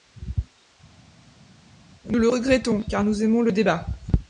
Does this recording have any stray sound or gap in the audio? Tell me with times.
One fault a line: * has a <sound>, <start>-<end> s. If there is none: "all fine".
all fine